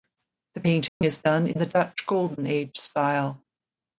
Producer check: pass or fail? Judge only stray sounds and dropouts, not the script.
fail